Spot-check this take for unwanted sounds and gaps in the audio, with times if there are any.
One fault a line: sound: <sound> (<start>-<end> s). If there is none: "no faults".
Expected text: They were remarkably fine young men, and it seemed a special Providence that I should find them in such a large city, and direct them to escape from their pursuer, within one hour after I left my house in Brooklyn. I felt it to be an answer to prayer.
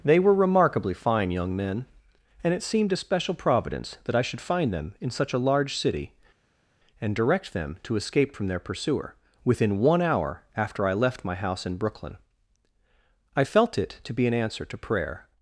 no faults